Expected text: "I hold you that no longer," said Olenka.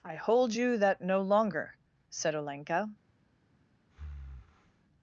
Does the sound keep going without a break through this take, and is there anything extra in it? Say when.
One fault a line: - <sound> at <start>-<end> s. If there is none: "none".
- breath at 3.9-4.8 s